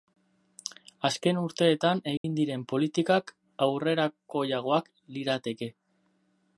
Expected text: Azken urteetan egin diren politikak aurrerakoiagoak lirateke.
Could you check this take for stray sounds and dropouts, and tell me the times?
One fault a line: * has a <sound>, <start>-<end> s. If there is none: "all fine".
* has a dropout, 2.2-2.2 s